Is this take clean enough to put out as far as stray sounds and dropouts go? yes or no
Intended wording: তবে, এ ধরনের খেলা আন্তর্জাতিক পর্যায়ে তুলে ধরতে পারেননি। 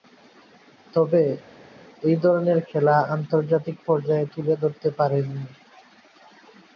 yes